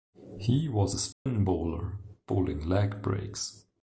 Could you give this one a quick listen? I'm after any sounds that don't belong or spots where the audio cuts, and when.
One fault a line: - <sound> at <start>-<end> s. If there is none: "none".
- dropout at 1.1-1.3 s